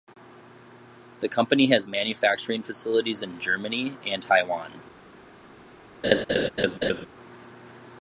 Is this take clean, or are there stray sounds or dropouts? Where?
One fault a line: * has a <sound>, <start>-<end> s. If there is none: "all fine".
* has a laugh, 6.0-7.1 s